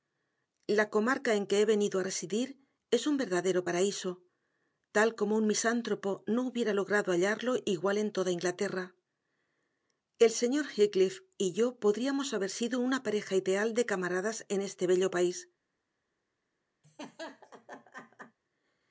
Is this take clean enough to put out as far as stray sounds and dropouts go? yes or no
no